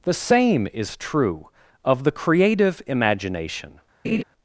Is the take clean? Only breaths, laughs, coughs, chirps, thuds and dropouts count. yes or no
no